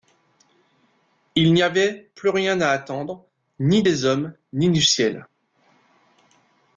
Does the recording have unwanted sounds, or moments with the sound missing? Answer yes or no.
no